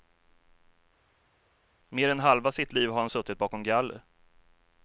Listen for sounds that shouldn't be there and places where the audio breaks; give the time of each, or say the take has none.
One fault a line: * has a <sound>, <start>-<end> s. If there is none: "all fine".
all fine